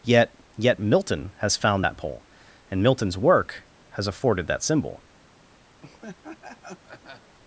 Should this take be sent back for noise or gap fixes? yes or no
yes